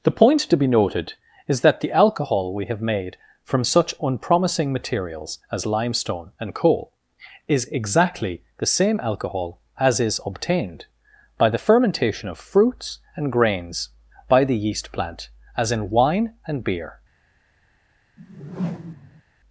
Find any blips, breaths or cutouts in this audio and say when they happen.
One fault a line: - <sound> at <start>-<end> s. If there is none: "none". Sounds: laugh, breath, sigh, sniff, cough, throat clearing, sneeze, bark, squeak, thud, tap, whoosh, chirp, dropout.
- whoosh at 18.2-19.2 s